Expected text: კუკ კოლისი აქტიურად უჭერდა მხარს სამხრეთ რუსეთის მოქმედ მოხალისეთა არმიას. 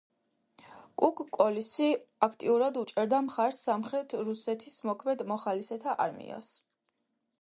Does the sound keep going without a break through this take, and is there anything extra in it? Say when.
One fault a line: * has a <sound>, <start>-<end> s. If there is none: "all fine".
all fine